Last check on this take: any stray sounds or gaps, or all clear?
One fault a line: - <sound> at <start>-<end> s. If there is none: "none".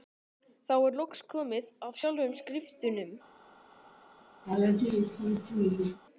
- laugh at 4.4-6.0 s